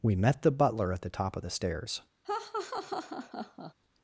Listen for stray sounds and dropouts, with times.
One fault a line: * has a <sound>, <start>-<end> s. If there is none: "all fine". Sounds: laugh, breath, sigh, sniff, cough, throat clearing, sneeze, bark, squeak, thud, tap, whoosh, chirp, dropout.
* has a laugh, 2.2-3.7 s